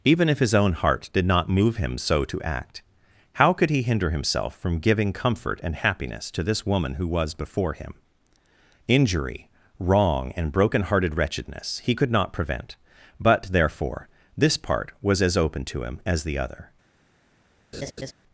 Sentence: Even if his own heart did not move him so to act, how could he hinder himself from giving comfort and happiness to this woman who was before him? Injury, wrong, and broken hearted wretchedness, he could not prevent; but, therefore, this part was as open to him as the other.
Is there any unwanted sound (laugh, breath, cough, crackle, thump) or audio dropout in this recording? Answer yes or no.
yes